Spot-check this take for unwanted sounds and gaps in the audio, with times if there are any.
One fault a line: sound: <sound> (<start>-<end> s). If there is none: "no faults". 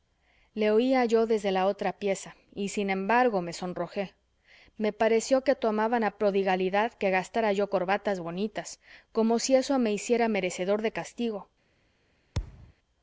sound: thud (12.3-12.7 s)